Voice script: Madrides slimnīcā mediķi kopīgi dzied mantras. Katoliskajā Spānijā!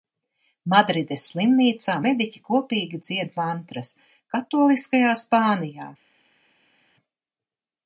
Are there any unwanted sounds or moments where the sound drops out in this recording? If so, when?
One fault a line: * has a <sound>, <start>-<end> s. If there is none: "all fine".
all fine